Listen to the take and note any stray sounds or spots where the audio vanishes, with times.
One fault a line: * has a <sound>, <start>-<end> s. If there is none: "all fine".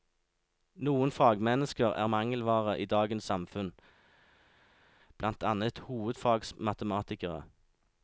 all fine